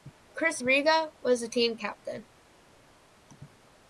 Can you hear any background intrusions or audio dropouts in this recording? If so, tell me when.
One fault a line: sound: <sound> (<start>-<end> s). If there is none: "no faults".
no faults